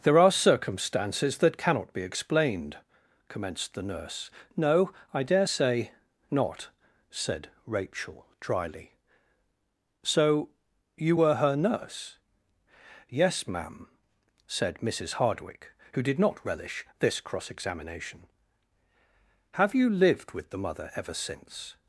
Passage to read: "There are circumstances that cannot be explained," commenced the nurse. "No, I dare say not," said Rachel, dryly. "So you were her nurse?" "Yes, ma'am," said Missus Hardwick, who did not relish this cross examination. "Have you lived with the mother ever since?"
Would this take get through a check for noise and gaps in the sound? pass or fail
pass